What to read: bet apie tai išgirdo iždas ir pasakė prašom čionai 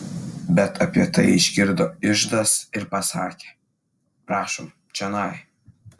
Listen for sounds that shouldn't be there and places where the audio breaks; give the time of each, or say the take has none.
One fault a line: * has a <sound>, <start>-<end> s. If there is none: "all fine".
all fine